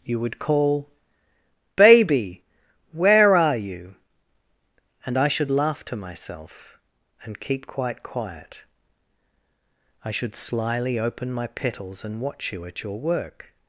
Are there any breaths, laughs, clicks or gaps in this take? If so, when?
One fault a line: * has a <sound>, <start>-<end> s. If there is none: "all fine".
all fine